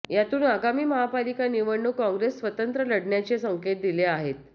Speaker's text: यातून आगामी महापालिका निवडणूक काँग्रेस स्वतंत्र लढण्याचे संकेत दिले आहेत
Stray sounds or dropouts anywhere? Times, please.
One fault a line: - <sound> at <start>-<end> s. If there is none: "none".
none